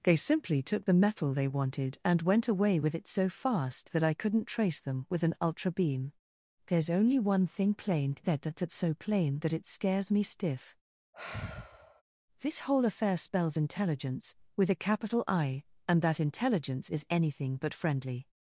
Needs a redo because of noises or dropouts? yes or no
yes